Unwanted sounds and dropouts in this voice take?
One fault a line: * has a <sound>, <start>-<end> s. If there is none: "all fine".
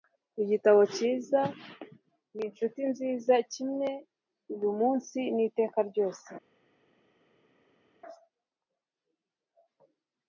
all fine